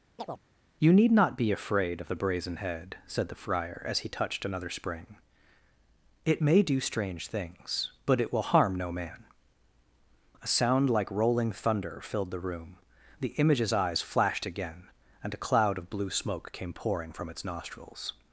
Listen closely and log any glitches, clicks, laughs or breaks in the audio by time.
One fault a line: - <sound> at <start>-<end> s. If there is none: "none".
- chirp at 0.2-0.4 s